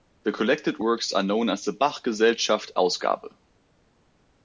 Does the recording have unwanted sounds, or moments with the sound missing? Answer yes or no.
no